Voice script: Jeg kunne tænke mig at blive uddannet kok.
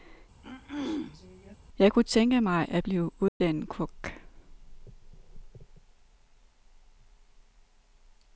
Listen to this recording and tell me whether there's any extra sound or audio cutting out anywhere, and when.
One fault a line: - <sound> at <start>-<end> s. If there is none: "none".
- throat clearing at 0.4-1.6 s
- dropout at 3.3-3.4 s